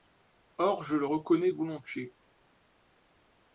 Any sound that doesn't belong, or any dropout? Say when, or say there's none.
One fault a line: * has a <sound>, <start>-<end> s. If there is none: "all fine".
all fine